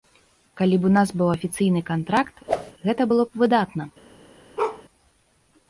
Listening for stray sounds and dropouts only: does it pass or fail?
fail